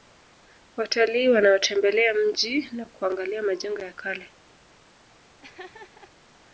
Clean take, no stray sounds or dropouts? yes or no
no